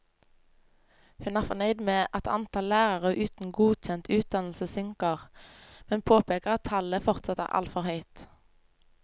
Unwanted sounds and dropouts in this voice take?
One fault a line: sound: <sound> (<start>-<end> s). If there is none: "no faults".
no faults